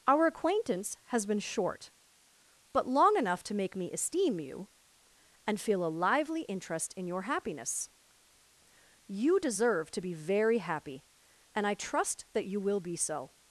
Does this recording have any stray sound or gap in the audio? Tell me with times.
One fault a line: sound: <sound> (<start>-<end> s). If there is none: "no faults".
no faults